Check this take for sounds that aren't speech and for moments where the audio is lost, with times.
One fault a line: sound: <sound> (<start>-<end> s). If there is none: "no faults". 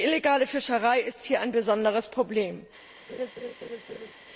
sound: laugh (3.1-4.1 s)